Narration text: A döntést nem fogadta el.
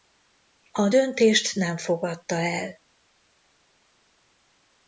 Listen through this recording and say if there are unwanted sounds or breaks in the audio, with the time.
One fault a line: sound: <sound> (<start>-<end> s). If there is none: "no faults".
no faults